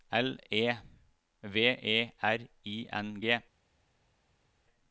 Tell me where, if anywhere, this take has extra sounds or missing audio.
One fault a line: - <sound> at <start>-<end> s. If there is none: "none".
none